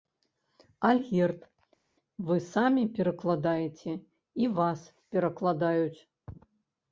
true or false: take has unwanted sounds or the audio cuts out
false